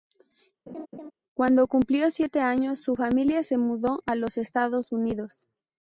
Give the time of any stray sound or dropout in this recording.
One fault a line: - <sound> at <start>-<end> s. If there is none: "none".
- laugh at 0.7-1.1 s